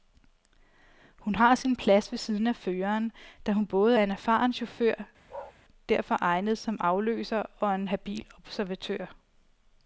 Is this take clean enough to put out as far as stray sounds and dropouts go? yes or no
no